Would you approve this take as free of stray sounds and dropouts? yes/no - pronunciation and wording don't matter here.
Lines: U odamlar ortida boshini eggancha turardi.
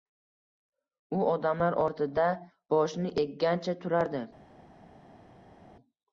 yes